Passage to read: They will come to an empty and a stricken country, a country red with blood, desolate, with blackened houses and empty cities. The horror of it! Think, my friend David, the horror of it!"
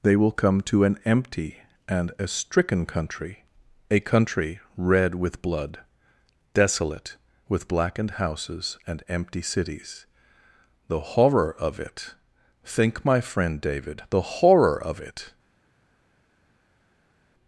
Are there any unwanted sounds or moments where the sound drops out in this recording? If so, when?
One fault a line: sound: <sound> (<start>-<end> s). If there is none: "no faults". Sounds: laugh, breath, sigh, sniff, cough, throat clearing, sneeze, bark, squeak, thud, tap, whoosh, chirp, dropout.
no faults